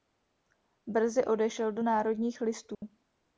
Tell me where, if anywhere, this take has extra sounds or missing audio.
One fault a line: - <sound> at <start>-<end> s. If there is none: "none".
- dropout at 2.7-2.8 s